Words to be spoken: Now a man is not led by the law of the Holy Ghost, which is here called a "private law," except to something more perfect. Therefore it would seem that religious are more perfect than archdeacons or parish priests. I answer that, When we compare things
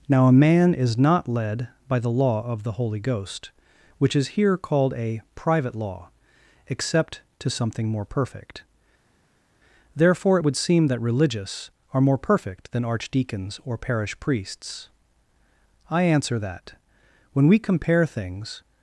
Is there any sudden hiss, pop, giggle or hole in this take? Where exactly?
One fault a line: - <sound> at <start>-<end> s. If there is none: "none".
none